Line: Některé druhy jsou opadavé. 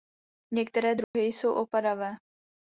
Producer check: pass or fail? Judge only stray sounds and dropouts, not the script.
fail